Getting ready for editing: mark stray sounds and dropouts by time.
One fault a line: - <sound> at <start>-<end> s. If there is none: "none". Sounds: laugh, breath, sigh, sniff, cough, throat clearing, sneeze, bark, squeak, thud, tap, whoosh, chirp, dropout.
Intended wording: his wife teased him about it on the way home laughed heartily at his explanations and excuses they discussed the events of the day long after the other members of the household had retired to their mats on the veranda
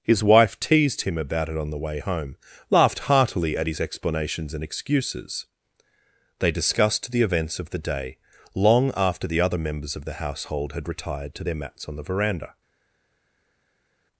none